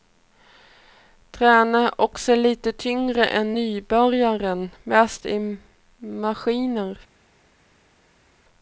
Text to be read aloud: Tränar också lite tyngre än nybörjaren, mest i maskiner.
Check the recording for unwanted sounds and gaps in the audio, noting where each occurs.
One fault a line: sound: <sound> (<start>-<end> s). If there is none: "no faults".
no faults